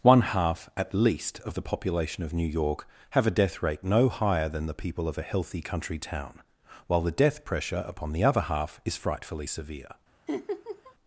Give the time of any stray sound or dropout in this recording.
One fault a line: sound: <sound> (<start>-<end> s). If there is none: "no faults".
sound: laugh (10.3-10.9 s)